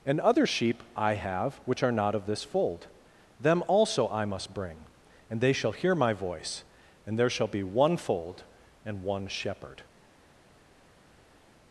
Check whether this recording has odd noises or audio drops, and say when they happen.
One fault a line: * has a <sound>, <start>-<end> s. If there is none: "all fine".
all fine